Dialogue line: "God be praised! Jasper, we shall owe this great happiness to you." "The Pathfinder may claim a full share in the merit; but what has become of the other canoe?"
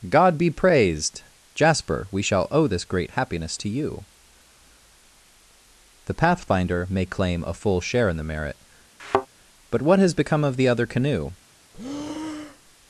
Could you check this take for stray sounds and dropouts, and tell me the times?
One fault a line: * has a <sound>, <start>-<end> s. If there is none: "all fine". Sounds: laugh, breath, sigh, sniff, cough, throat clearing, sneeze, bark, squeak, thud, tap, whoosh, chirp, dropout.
* has a thud, 9.0-9.3 s
* has a breath, 11.7-12.8 s